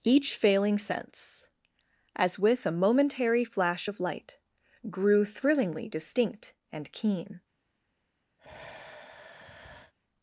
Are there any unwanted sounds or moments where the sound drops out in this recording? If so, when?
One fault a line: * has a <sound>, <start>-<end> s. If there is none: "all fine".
* has a sigh, 8.4-9.9 s